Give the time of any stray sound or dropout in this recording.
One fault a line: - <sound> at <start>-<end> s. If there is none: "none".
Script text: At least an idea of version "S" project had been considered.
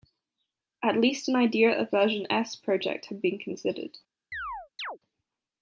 - chirp at 4.3-5.0 s